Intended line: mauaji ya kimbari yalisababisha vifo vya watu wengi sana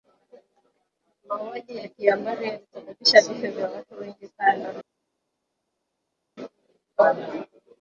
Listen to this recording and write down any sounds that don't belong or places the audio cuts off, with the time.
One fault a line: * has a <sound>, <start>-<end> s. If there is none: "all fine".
all fine